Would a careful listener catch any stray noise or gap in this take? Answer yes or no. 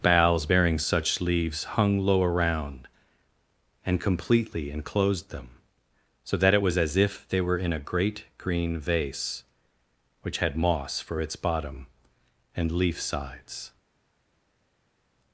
no